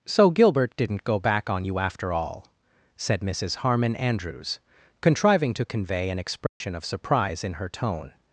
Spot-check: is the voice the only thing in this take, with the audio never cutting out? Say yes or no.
no